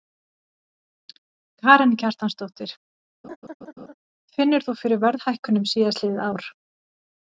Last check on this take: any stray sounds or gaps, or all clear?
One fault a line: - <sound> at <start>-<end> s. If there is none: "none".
- laugh at 3.2-3.9 s